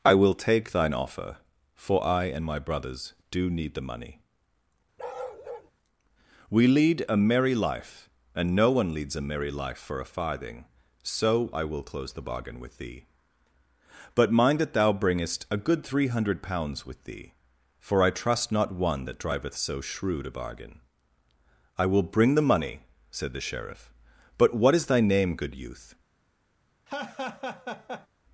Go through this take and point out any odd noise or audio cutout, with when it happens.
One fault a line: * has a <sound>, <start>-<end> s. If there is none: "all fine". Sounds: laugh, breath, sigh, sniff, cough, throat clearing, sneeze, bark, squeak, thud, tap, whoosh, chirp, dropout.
* has a bark, 5.0-5.7 s
* has a laugh, 26.9-28.1 s